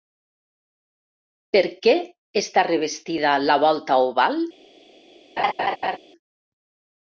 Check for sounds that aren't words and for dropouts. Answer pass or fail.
fail